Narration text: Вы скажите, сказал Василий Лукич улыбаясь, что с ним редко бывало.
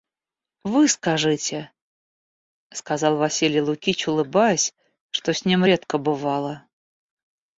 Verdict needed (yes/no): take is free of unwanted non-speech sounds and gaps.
yes